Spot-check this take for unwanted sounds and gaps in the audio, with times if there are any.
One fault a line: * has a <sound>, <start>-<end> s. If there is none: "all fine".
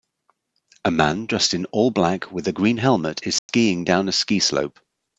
* has a dropout, 3.4-3.5 s